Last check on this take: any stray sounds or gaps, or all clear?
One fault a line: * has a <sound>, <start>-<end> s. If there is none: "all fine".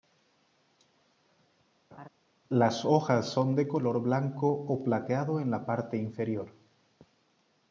* has a laugh, 1.9-2.1 s